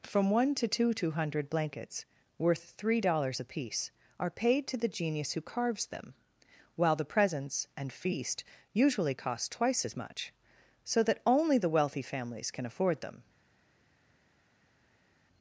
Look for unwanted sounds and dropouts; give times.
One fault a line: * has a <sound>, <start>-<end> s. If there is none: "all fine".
all fine